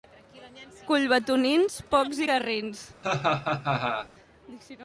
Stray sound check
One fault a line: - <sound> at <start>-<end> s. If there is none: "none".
- laugh at 3.0-4.1 s